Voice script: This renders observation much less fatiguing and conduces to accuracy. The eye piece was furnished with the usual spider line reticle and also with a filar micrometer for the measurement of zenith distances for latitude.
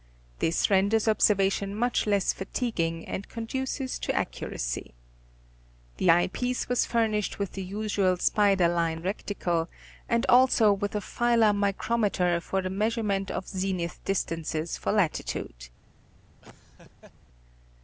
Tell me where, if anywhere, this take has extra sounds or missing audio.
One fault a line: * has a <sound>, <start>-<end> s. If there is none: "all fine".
* has a laugh, 16.4-17.1 s